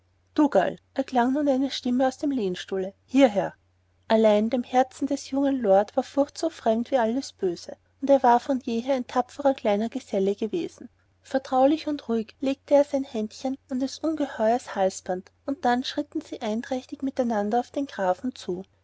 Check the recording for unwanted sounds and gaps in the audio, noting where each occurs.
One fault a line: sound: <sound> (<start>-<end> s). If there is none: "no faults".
no faults